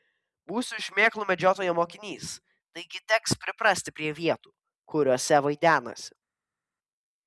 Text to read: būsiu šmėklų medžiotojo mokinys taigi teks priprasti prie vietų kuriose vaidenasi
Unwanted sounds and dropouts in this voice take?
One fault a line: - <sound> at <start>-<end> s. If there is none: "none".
none